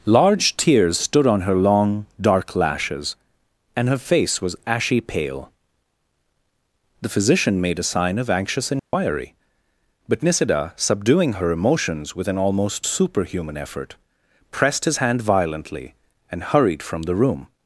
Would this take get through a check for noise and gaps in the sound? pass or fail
fail